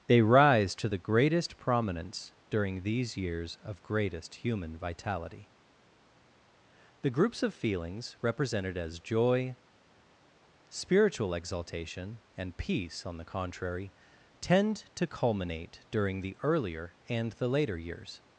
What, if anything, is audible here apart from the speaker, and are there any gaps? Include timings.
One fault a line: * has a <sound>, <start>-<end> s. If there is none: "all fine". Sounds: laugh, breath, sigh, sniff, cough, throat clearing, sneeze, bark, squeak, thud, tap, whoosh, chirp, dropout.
all fine